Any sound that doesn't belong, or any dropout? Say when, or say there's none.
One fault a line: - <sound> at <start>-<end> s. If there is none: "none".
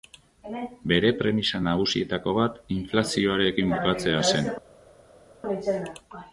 none